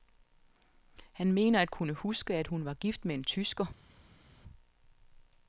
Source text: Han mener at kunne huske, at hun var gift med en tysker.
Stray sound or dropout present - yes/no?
no